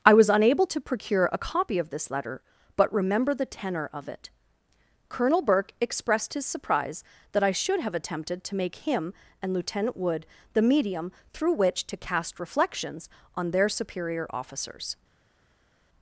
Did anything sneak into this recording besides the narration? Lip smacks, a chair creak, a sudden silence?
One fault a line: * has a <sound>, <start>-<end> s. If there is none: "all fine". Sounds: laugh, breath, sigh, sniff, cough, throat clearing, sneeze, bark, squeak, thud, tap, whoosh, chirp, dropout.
all fine